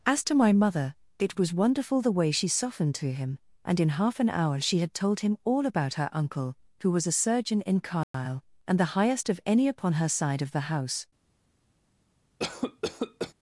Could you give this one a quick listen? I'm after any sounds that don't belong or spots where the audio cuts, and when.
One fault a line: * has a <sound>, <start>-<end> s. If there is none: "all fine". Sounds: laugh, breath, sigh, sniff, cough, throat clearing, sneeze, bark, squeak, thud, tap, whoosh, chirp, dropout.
* has a dropout, 8.0-8.1 s
* has a cough, 12.4-13.3 s